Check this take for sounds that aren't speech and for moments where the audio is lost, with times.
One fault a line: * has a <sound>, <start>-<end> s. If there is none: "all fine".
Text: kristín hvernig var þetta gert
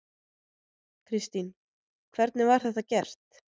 all fine